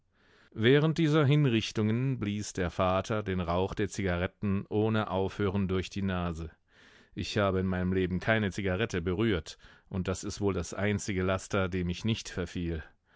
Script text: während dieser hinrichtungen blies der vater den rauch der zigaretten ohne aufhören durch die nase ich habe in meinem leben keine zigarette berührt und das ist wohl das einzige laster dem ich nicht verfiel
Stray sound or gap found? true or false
false